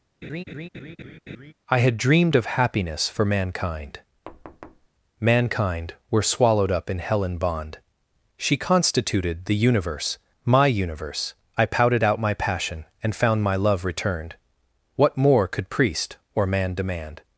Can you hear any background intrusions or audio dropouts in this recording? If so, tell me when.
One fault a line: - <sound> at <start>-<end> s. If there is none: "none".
- laugh at 0.2-1.5 s
- thud at 4.3-4.9 s